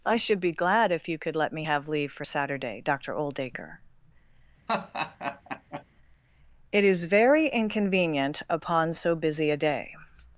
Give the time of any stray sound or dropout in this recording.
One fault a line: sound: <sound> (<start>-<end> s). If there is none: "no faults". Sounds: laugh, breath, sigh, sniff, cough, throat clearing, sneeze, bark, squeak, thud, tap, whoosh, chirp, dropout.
sound: laugh (4.7-5.8 s)